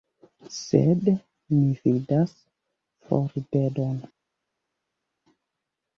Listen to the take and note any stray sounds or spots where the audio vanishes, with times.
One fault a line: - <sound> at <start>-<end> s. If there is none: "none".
none